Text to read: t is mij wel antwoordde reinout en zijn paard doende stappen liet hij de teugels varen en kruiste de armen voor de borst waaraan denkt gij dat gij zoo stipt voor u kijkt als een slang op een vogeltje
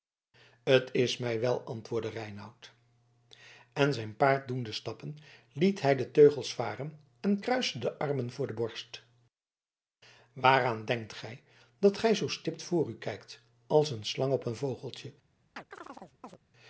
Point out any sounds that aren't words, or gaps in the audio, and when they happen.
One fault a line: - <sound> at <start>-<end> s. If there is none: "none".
- chirp at 15.6-16.4 s